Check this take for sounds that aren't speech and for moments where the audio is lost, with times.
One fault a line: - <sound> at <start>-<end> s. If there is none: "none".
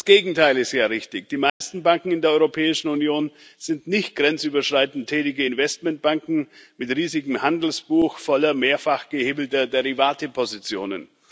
- dropout at 1.5-1.6 s